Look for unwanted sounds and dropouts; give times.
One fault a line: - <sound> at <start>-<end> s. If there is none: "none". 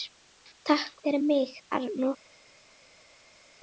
none